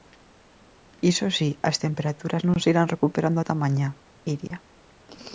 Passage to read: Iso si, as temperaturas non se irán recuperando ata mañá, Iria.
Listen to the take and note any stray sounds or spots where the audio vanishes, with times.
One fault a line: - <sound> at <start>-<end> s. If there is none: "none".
- dropout at 4.5-4.5 s